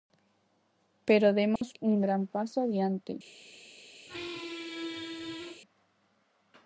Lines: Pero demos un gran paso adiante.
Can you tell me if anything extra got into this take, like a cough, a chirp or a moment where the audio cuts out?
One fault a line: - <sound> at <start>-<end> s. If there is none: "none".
- dropout at 1.6-1.6 s
- squeak at 4.1-5.6 s